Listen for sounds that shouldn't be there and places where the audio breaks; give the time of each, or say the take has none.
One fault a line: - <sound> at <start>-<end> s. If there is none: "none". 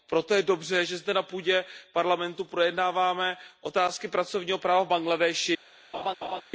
- laugh at 5.9-6.4 s